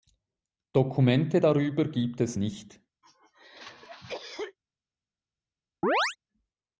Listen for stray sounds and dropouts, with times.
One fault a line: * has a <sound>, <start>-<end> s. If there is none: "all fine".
* has a cough, 3.0-4.6 s
* has a chirp, 5.8-6.2 s